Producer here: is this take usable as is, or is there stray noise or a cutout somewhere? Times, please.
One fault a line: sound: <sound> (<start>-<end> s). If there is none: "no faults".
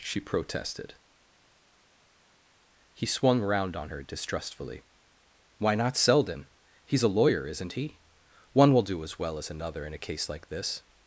no faults